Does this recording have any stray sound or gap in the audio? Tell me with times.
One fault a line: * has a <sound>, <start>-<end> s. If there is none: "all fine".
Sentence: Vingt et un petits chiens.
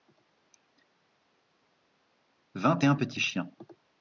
all fine